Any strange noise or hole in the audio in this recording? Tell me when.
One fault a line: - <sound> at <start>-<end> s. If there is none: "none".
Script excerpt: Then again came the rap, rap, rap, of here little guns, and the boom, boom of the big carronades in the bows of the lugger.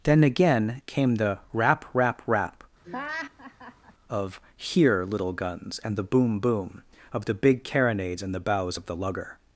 - laugh at 2.8-3.9 s